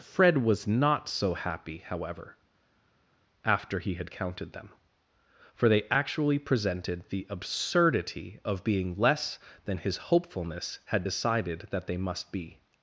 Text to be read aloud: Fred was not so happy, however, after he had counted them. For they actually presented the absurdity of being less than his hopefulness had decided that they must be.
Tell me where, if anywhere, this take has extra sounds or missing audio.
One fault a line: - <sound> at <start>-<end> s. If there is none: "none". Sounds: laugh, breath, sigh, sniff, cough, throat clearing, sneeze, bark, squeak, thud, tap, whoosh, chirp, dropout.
none